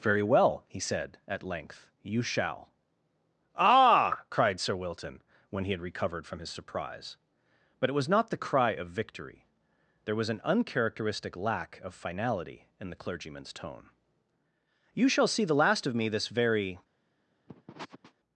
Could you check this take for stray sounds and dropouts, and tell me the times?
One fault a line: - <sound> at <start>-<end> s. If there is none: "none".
- sniff at 17.5-18.1 s